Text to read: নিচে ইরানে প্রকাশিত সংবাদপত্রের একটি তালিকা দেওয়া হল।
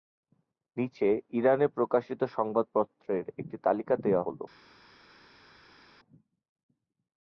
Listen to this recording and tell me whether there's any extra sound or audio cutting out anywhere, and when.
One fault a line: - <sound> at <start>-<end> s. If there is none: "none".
none